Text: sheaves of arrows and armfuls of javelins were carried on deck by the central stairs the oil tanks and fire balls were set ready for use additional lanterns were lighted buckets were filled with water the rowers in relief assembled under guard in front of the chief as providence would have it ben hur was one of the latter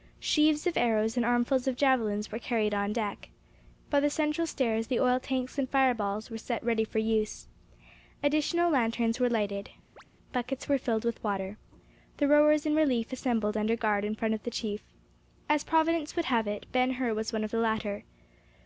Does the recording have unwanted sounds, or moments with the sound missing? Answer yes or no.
yes